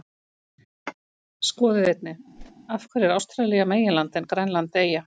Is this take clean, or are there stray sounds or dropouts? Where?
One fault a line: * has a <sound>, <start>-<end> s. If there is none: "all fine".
* has a whoosh, 2.4-2.5 s